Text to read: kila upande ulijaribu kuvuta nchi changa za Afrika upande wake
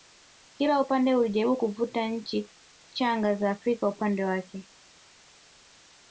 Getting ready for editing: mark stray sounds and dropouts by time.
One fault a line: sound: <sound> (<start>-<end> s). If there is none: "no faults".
no faults